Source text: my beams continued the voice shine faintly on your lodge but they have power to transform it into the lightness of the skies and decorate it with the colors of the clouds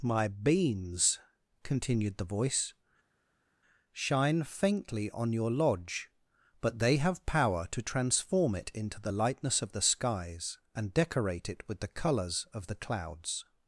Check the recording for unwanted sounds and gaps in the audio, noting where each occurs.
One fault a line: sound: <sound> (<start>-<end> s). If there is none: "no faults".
no faults